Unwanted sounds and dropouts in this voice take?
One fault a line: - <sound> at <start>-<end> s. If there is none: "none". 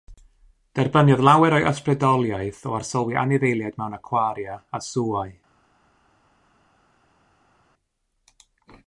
none